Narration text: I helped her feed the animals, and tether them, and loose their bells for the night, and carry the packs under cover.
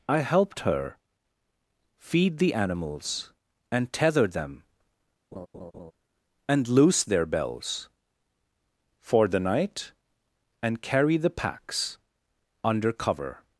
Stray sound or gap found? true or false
true